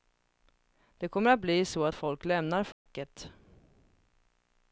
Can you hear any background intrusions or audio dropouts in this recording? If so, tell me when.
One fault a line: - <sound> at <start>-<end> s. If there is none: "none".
- dropout at 2.7-2.9 s